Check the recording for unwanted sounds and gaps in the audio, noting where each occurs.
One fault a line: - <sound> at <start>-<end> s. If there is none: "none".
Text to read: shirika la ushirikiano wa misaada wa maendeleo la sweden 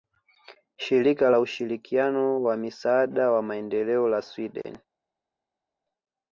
none